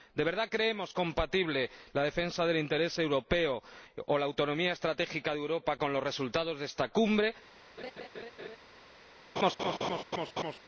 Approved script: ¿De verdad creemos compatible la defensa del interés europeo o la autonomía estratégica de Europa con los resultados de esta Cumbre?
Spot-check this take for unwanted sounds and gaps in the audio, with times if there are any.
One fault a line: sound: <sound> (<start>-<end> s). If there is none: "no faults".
sound: laugh (7.8-8.6 s)
sound: laugh (9.4-10.6 s)